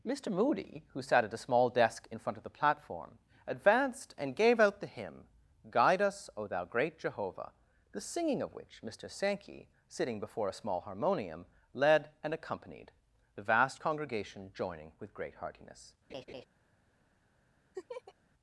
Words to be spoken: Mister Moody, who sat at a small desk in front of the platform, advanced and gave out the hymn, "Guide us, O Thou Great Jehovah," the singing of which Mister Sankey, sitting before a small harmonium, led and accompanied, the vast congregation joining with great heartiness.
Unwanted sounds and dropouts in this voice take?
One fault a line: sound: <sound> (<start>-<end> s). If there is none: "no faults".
sound: laugh (16.1-16.4 s)
sound: laugh (17.7-18.1 s)